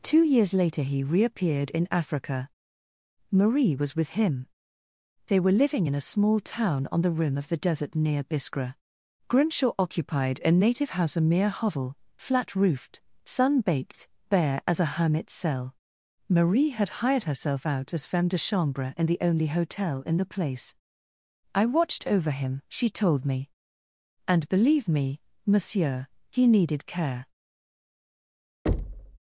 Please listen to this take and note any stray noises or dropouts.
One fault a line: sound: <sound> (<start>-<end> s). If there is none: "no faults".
sound: thud (28.7-29.2 s)